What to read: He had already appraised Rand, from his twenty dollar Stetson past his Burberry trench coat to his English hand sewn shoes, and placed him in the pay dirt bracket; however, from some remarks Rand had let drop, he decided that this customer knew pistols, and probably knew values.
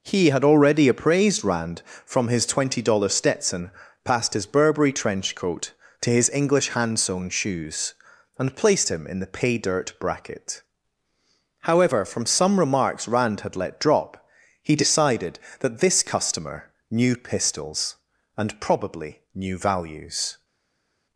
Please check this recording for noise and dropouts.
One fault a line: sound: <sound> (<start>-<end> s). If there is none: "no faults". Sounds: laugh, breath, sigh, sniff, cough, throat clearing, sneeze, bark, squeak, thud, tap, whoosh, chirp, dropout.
no faults